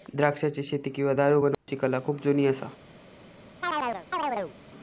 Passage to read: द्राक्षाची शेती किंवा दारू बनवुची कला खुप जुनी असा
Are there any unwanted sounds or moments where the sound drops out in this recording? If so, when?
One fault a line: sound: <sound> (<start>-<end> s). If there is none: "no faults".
sound: dropout (1.5-1.7 s)
sound: chirp (3.6-4.5 s)